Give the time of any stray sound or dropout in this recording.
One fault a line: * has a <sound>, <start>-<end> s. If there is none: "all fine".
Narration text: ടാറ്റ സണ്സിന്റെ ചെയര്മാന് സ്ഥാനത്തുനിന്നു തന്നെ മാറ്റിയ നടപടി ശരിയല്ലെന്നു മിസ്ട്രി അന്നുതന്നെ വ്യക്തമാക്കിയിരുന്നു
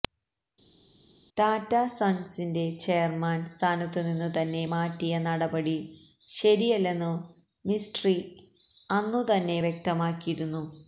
all fine